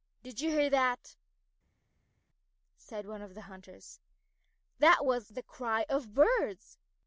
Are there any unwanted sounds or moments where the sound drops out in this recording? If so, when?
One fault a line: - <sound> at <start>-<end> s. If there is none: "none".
none